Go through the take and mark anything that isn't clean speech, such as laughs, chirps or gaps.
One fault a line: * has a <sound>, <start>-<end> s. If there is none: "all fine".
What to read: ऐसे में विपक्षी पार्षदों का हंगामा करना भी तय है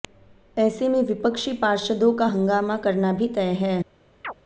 * has a chirp, 4.2-4.3 s